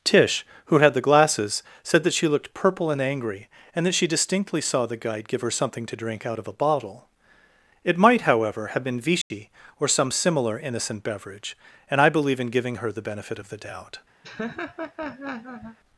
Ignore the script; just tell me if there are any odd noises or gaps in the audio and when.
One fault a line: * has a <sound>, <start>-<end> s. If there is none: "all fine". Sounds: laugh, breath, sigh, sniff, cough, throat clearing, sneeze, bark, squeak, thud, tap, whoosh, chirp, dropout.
* has a dropout, 9.2-9.3 s
* has a laugh, 14.2-15.8 s